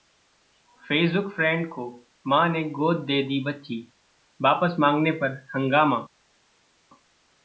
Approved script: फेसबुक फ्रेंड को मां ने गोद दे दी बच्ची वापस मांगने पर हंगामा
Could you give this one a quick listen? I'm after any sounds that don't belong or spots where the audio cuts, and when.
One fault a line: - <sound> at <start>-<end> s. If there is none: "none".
none